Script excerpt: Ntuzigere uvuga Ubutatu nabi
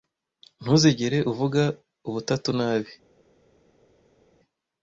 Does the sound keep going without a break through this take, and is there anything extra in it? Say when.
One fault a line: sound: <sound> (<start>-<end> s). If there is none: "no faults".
no faults